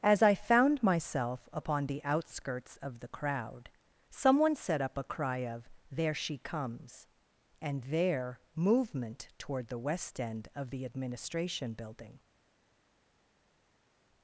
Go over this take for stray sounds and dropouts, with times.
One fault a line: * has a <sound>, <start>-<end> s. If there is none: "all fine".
all fine